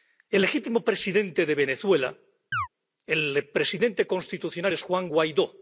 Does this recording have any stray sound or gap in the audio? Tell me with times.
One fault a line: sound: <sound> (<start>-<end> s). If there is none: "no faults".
sound: chirp (2.5-2.7 s)